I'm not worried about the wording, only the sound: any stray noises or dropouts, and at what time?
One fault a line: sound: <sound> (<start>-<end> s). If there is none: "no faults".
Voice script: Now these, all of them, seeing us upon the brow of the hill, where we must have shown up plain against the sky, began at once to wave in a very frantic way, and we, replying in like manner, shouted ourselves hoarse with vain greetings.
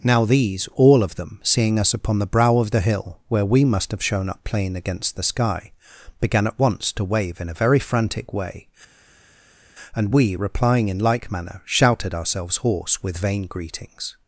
no faults